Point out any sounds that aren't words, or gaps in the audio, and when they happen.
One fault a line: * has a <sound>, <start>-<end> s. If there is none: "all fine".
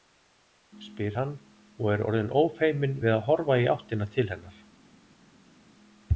all fine